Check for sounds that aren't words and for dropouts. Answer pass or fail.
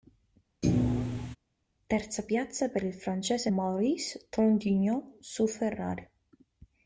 fail